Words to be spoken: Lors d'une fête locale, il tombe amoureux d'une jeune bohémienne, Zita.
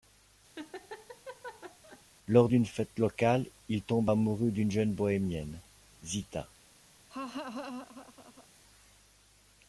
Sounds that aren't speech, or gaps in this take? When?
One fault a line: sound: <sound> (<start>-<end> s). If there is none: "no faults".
sound: laugh (0.5-2.0 s)
sound: laugh (7.1-8.5 s)